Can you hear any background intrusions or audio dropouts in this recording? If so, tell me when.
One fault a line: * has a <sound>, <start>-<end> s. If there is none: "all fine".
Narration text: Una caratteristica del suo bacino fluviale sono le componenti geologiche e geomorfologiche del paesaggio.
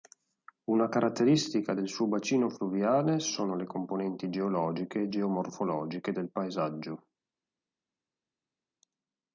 all fine